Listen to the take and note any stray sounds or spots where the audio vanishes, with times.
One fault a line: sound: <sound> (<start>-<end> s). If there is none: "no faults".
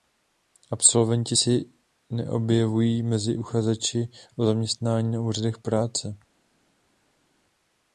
no faults